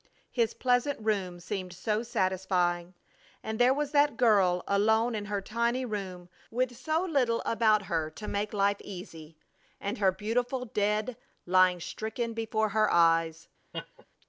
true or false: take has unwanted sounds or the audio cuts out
true